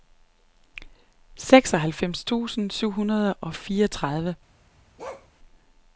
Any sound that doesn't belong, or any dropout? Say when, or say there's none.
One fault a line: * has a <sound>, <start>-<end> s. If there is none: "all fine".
* has a bark, 5.0-5.3 s